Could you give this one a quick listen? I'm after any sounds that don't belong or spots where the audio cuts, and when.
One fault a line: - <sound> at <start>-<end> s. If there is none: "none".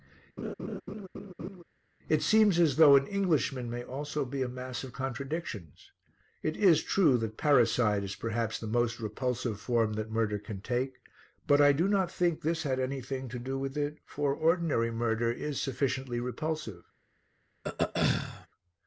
- laugh at 0.4-1.6 s
- throat clearing at 17.6-18.5 s